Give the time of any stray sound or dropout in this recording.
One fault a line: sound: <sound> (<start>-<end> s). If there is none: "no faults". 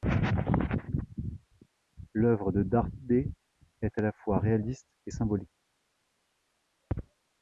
no faults